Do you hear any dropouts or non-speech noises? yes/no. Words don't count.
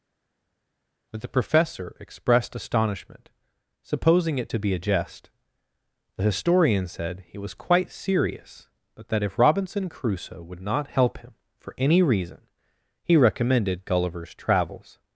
no